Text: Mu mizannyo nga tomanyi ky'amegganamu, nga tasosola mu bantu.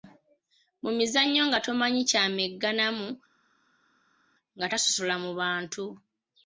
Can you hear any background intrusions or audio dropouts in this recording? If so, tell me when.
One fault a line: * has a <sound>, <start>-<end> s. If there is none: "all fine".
all fine